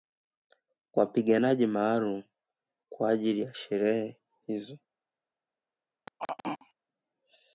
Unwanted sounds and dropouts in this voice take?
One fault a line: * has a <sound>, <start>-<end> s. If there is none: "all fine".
* has a throat clearing, 6.1-6.7 s